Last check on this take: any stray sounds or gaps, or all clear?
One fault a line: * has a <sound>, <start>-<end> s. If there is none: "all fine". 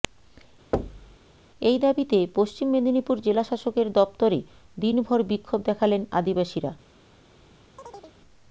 * has a thud, 0.7-1.2 s
* has a chirp, 7.8-8.2 s